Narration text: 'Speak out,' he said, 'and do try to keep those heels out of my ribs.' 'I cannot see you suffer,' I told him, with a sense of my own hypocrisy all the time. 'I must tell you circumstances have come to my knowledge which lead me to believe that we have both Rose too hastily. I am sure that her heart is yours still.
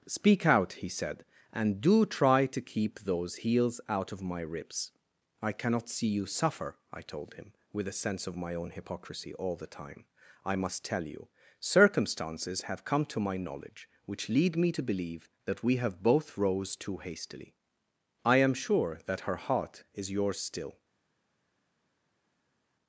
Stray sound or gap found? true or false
false